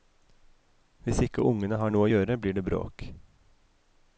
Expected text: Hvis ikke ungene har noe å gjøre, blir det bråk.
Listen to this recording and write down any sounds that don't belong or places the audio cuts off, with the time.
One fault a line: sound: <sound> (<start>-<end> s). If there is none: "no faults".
no faults